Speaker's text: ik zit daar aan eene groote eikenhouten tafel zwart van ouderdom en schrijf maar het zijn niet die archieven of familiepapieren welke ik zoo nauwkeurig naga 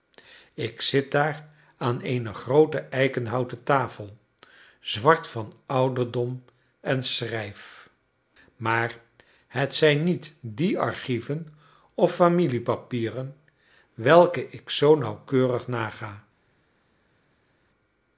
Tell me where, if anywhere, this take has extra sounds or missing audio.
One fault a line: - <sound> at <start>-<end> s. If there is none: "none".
none